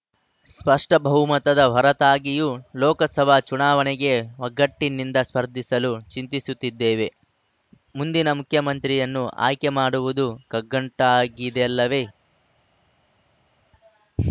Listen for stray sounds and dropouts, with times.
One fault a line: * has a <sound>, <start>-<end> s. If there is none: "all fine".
all fine